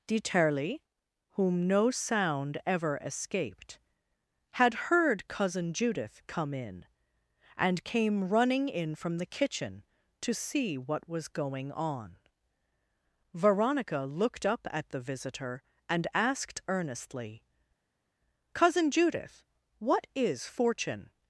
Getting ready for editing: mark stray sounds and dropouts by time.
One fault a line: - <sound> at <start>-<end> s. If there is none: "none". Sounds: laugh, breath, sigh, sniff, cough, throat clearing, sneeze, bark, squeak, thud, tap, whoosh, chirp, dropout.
none